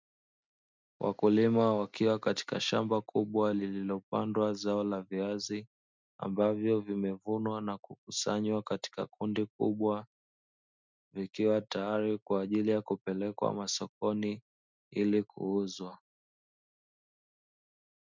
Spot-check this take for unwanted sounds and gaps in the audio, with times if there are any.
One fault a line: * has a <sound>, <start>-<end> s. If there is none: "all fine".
all fine